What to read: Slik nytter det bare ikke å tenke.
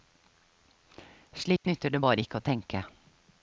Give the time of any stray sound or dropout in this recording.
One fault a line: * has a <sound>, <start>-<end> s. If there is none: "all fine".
* has a dropout, 1.6-1.6 s